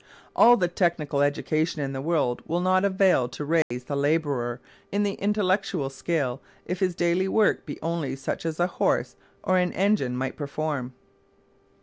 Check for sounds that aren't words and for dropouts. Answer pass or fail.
fail